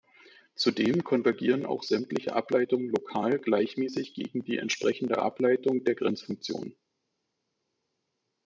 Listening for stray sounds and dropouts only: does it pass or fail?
pass